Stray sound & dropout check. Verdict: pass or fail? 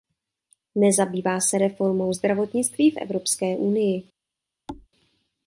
fail